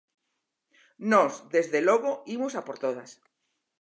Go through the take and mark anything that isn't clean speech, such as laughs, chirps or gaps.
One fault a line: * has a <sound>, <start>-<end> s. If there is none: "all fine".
all fine